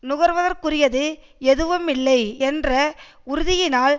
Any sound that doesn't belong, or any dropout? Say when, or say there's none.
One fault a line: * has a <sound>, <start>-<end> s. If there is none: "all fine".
all fine